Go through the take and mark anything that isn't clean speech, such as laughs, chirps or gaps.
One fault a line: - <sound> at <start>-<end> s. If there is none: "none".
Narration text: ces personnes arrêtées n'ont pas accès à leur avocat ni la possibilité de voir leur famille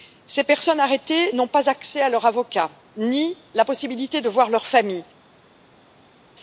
none